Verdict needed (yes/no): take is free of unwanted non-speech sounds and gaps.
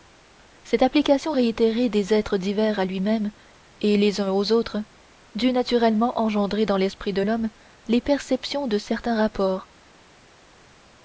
yes